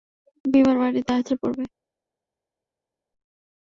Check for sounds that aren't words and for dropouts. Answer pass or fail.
pass